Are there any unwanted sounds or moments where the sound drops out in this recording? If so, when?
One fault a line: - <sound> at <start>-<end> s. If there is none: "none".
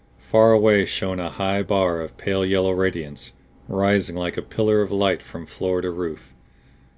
none